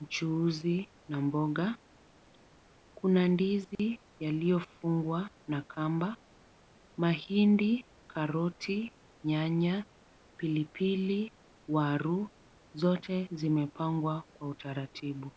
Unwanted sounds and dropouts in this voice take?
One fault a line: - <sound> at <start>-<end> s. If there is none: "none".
- dropout at 3.8-3.8 s